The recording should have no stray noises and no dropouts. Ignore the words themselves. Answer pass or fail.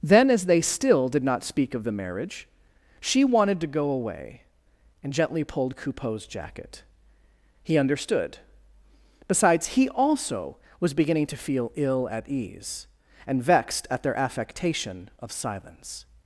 pass